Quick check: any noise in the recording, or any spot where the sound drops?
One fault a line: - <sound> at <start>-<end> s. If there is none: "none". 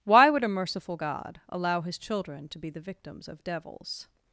none